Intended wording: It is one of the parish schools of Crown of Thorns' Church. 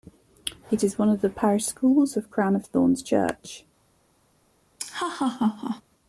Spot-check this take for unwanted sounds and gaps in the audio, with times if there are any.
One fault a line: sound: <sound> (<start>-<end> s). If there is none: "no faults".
sound: laugh (4.8-5.8 s)